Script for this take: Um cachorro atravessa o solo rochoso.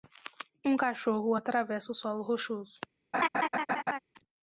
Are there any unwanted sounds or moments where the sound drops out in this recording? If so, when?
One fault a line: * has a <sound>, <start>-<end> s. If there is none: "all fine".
* has a laugh, 3.1-4.0 s